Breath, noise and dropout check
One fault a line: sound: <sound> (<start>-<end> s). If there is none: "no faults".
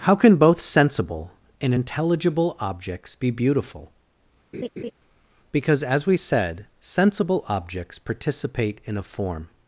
sound: laugh (4.5-4.9 s)